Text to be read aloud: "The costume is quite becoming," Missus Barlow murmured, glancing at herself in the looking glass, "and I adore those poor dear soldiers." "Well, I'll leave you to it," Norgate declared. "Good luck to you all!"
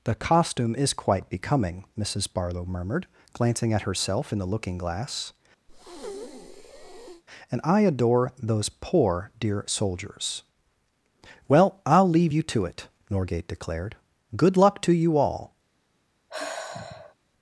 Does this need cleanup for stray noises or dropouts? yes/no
yes